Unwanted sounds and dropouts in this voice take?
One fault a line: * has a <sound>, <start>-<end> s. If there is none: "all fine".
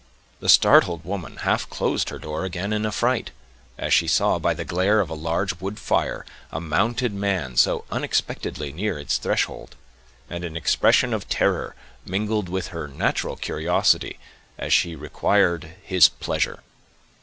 all fine